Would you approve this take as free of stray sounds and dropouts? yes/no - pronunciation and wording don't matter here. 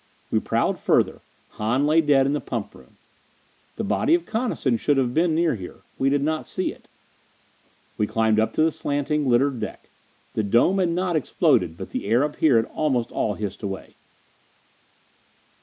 yes